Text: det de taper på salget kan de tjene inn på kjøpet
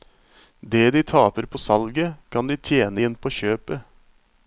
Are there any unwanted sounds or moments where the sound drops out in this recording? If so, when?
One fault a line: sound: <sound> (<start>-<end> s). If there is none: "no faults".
no faults